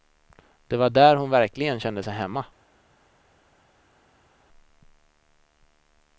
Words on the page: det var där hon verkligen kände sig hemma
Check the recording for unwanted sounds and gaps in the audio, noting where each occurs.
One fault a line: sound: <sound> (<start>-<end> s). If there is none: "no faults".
no faults